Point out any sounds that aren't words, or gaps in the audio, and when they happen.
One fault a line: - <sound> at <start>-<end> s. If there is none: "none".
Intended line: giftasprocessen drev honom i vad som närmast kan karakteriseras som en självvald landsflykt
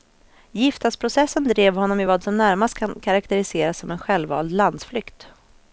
none